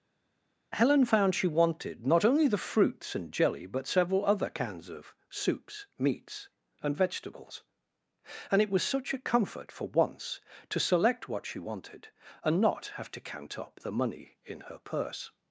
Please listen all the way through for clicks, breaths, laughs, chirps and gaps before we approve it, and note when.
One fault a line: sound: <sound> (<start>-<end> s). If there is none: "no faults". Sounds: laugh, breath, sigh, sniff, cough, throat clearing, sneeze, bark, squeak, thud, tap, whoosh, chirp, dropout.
no faults